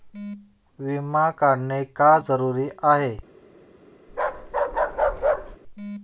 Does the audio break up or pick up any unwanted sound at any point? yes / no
yes